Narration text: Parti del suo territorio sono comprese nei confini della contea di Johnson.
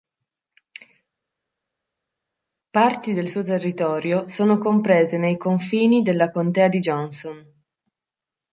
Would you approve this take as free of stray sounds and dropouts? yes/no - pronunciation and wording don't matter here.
yes